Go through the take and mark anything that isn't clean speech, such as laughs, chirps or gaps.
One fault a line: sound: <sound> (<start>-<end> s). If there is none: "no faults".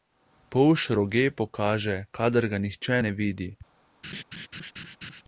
sound: laugh (4.0-5.2 s)